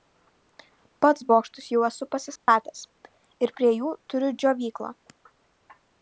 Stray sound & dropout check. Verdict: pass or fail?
fail